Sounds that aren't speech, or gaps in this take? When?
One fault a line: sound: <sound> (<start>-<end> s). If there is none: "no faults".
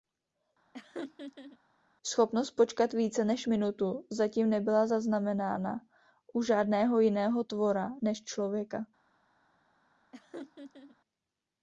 sound: laugh (0.7-1.6 s)
sound: laugh (10.1-11.0 s)